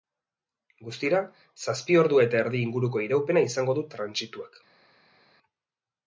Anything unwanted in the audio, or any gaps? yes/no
no